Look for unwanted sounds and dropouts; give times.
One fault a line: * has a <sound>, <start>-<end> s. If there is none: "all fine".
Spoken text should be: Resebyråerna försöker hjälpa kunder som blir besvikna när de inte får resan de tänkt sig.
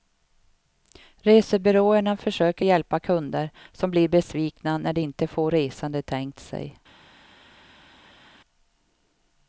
all fine